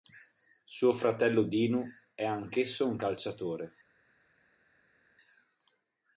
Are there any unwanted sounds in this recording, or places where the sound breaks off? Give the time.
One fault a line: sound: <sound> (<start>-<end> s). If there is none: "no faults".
no faults